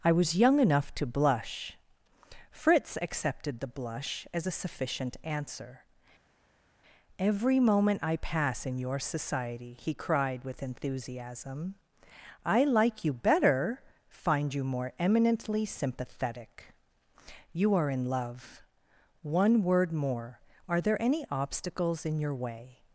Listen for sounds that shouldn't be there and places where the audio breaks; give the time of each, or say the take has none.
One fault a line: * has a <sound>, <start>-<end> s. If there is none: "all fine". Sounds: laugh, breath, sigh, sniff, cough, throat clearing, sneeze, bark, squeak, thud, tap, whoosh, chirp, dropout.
all fine